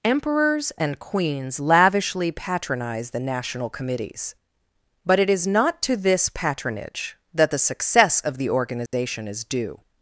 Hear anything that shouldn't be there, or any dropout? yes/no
yes